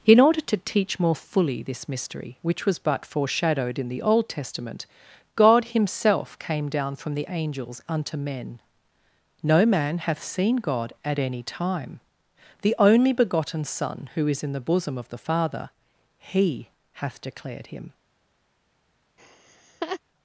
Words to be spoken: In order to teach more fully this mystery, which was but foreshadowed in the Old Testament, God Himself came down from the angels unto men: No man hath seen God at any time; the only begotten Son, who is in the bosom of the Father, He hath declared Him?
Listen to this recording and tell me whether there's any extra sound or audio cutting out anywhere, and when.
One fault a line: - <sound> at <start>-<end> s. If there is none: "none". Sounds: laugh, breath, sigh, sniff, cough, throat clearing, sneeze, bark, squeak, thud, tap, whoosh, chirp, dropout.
- laugh at 19.2-20.0 s